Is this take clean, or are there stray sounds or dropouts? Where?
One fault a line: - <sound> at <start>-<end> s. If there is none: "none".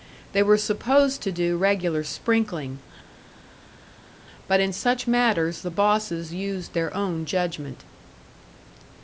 none